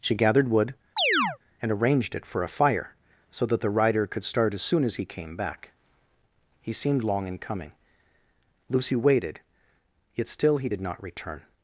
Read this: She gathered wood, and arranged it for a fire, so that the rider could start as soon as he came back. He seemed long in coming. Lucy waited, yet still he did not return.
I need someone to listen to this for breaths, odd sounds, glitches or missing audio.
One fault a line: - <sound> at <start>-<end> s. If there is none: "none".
- chirp at 1.0-1.4 s